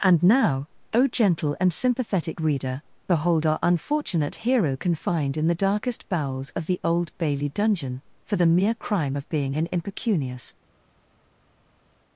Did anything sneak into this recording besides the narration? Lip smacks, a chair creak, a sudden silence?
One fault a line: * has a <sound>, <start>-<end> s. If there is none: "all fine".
all fine